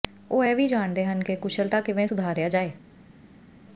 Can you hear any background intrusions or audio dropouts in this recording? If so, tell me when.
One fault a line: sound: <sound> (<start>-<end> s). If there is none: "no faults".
no faults